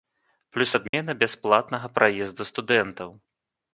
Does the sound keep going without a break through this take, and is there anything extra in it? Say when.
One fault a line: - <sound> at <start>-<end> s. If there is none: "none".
- dropout at 0.9-0.9 s